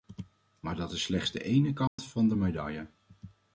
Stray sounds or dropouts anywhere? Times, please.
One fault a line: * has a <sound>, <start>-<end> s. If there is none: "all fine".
* has a dropout, 1.9-2.0 s